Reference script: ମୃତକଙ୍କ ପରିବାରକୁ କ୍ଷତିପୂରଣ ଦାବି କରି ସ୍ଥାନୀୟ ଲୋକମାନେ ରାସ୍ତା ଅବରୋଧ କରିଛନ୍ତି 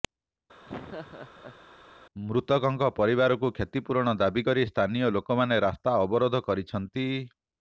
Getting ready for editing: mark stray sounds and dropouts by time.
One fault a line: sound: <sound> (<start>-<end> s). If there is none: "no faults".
sound: laugh (0.7-1.6 s)